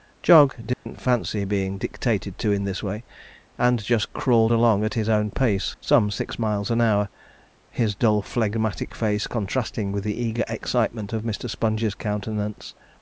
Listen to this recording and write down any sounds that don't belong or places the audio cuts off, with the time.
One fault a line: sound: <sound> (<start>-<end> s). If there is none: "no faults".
sound: dropout (0.7-0.9 s)